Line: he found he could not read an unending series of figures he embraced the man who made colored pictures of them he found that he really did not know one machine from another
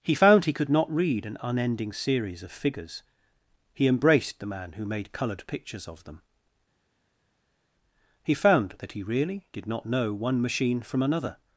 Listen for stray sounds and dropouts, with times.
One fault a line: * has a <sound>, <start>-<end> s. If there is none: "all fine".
all fine